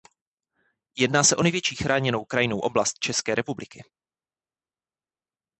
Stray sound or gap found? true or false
false